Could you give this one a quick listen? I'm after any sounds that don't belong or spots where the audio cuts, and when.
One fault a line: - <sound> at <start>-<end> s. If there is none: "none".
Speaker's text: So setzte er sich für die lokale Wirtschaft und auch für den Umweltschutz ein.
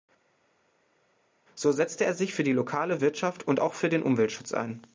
none